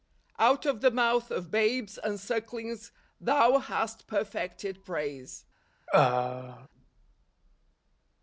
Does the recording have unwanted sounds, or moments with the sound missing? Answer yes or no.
yes